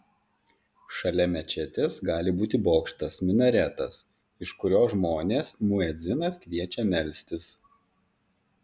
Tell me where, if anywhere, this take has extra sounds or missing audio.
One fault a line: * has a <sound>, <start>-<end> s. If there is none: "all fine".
all fine